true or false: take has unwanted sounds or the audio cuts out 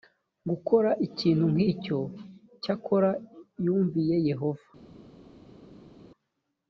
false